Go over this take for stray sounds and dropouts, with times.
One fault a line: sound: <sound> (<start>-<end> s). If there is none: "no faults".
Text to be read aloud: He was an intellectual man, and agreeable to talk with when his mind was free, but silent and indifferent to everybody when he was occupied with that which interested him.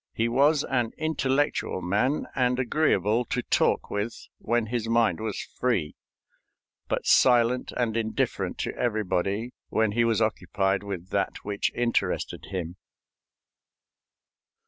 no faults